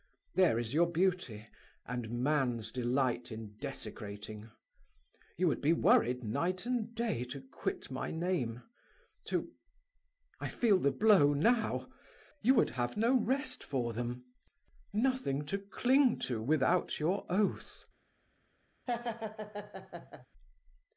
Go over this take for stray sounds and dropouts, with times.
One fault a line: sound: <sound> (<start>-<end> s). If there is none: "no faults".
sound: laugh (18.9-20.3 s)